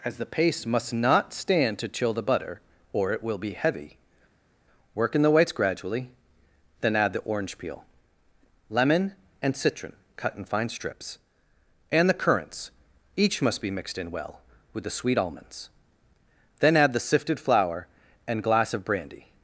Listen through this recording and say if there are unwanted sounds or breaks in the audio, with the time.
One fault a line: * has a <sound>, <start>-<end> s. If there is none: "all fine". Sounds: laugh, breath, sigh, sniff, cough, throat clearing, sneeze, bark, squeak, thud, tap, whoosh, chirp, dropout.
all fine